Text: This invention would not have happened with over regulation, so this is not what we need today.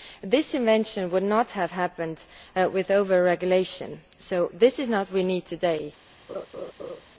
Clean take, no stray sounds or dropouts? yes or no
no